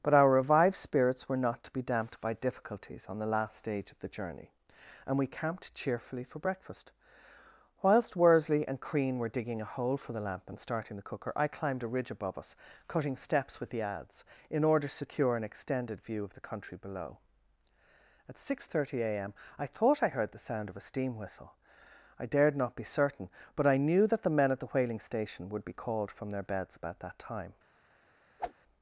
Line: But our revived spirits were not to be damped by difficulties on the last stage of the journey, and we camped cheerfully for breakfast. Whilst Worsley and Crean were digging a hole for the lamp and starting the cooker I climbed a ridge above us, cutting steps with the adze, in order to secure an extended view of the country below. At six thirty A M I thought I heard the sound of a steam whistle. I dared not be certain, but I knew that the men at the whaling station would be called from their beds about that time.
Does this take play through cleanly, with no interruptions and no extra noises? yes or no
no